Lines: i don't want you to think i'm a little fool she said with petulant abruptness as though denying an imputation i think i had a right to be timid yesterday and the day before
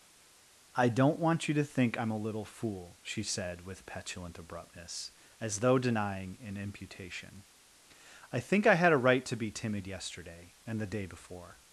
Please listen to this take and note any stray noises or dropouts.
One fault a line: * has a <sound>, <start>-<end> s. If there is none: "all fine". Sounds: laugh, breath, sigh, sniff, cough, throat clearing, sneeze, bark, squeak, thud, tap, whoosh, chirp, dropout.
all fine